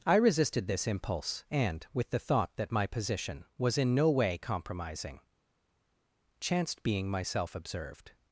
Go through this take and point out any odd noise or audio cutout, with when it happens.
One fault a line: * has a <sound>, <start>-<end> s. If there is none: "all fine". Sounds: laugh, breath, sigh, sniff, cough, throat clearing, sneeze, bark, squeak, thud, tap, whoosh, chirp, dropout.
all fine